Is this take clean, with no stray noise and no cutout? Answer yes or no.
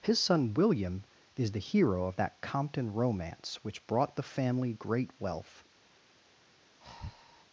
no